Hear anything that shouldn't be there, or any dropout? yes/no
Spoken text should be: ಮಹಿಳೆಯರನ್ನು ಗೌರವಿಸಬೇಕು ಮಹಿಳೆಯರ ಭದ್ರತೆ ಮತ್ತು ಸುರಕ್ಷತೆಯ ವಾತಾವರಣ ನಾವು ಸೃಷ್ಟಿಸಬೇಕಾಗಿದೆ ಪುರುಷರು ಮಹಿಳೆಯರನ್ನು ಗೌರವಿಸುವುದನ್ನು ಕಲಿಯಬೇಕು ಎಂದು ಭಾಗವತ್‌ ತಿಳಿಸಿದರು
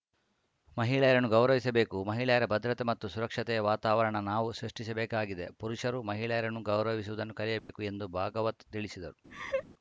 yes